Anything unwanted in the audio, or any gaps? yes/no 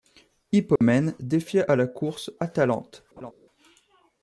yes